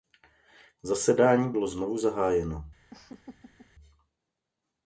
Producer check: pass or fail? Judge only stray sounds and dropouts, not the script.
fail